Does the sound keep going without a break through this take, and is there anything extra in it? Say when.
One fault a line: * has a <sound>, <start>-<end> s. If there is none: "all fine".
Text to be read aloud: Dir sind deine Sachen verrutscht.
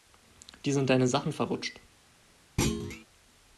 * has a thud, 2.6-3.1 s